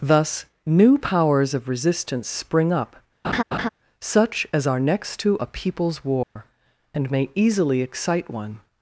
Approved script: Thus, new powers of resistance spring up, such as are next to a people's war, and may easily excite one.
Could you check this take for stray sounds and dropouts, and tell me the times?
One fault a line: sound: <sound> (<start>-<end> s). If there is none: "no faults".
sound: laugh (3.2-3.7 s)
sound: dropout (6.2-6.4 s)